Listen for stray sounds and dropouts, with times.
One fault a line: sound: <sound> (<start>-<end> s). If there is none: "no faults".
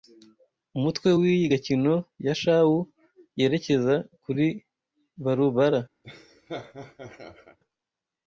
sound: laugh (6.0-7.6 s)